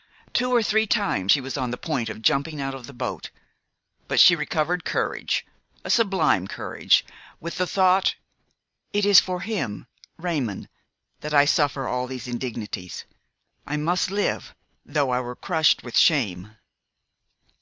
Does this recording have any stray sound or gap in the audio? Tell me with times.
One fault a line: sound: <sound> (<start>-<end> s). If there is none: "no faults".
no faults